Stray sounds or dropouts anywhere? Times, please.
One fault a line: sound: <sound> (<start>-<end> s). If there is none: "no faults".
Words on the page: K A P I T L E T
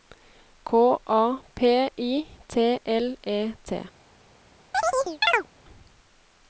sound: chirp (4.7-5.5 s)